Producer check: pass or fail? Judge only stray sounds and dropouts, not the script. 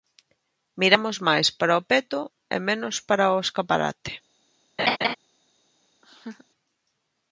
fail